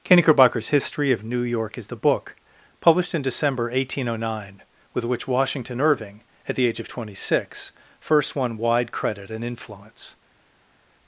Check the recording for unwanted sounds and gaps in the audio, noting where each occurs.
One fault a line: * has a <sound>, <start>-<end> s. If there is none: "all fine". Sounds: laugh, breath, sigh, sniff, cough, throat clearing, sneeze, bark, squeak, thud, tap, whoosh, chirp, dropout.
all fine